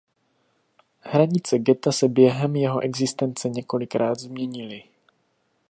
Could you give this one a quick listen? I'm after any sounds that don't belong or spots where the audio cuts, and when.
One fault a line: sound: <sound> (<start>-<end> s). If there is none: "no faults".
no faults